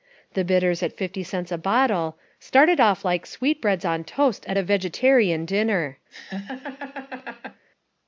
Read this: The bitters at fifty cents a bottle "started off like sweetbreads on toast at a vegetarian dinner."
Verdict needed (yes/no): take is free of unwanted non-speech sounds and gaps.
no